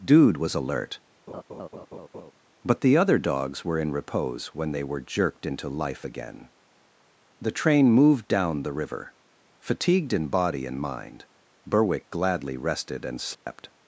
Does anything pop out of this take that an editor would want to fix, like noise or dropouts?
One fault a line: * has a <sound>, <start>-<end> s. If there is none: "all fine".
* has a laugh, 1.3-2.3 s
* has a dropout, 13.3-13.5 s